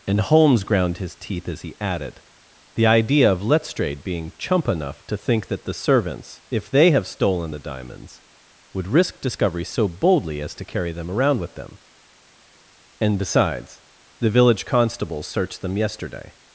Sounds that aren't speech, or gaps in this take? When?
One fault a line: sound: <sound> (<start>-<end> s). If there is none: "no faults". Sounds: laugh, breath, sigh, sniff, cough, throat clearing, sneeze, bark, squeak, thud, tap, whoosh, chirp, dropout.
no faults